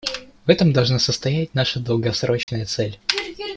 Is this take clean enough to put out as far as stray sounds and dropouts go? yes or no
no